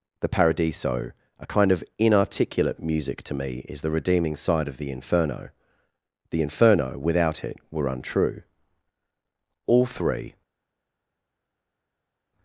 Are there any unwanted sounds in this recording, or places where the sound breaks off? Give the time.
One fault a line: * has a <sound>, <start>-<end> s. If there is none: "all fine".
all fine